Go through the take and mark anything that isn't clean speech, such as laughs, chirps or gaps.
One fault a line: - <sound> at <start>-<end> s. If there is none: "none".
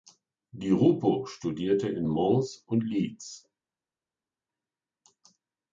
none